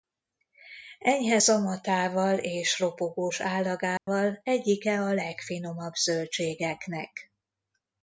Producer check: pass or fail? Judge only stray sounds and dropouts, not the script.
fail